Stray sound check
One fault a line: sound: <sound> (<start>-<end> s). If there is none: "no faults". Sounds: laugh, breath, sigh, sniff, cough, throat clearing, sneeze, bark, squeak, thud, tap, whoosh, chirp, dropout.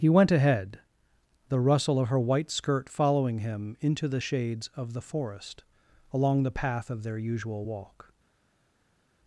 no faults